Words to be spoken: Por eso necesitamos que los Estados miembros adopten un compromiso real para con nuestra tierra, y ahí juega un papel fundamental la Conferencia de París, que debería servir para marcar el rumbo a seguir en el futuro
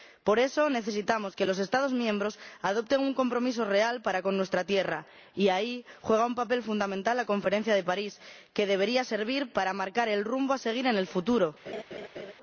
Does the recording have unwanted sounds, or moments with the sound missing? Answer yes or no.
yes